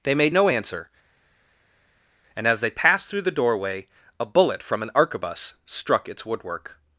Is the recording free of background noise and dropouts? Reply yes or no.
yes